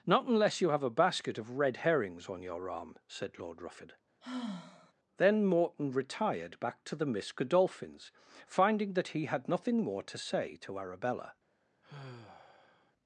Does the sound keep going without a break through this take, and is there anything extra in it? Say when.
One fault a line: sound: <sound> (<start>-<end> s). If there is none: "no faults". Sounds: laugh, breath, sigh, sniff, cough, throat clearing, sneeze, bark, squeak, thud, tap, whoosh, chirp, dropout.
sound: sigh (4.2-4.9 s)
sound: sigh (11.8-12.9 s)